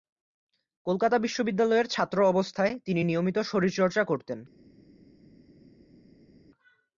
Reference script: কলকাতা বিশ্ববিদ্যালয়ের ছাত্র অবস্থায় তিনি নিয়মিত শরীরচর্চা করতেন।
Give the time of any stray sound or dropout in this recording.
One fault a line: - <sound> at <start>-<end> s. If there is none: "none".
none